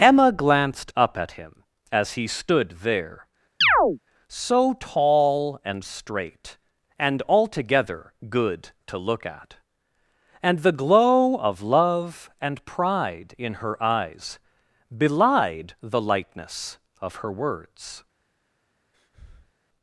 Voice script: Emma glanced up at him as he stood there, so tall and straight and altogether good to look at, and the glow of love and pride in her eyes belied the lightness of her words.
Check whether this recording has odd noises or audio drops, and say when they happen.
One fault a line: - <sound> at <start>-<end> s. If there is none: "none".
- chirp at 3.6-4.0 s
- breath at 18.9-19.5 s